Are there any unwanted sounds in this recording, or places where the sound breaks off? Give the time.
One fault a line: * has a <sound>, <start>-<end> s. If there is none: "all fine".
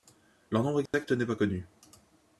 * has a dropout, 0.9-0.9 s